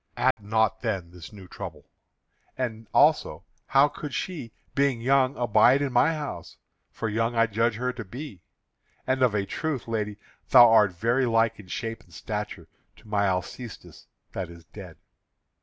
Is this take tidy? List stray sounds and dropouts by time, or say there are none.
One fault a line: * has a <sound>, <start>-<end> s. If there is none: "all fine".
* has a dropout, 0.3-0.4 s